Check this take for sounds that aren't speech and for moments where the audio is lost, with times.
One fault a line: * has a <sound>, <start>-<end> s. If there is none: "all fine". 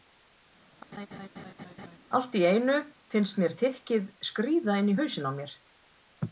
* has a laugh, 0.9-2.0 s